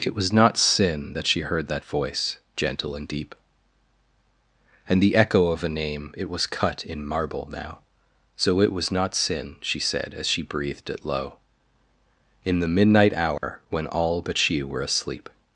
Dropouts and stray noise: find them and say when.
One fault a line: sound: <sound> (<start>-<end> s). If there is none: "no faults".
sound: dropout (13.4-13.4 s)